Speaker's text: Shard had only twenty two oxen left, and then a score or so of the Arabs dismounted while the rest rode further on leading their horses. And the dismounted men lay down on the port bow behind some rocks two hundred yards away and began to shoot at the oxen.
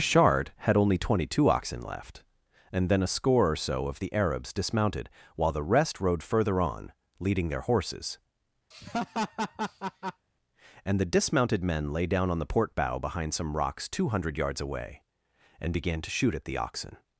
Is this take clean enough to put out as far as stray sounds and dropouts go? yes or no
no